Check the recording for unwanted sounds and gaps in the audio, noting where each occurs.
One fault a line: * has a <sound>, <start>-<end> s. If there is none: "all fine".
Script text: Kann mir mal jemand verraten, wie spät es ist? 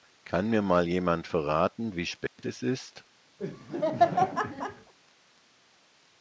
* has a dropout, 2.3-2.4 s
* has a laugh, 3.4-4.9 s